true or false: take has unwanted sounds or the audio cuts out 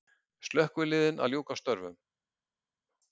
false